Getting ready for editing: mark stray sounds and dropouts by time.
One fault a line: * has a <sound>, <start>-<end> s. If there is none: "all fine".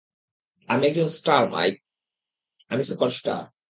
all fine